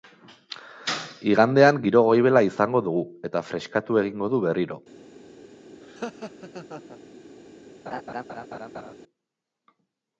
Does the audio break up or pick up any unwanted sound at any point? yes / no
yes